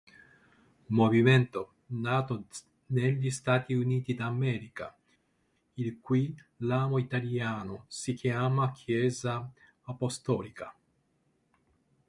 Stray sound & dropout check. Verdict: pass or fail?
pass